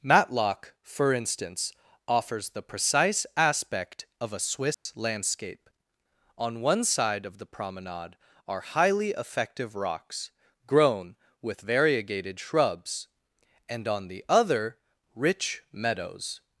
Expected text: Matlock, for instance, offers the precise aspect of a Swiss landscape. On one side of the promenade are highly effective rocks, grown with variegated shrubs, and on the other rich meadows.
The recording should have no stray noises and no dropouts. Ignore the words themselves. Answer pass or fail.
fail